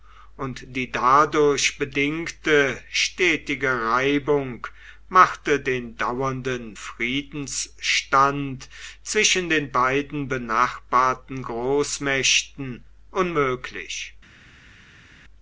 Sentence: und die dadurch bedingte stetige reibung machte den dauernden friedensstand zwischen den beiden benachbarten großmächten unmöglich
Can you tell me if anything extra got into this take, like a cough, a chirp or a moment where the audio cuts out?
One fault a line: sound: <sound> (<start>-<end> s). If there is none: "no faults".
no faults